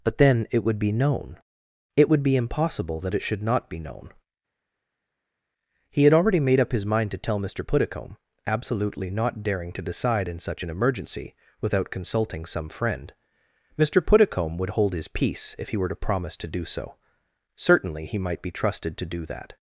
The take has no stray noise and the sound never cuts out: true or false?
true